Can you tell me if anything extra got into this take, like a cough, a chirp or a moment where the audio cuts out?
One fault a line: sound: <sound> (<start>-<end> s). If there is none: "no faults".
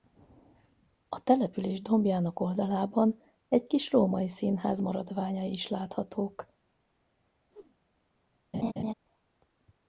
sound: whoosh (7.5-7.8 s)
sound: laugh (8.5-8.9 s)